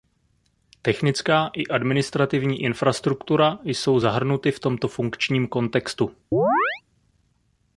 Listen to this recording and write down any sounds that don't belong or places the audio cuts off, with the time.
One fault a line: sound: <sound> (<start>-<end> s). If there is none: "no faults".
sound: chirp (6.3-6.8 s)